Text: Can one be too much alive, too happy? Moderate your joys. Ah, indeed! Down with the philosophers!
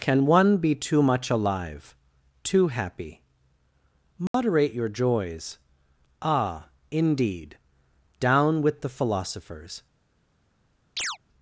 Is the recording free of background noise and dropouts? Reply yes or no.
no